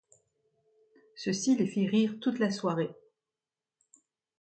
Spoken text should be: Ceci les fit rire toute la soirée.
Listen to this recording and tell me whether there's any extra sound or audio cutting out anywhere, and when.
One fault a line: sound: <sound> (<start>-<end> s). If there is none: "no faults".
no faults